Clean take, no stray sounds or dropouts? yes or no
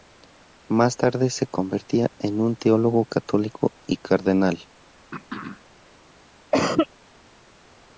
no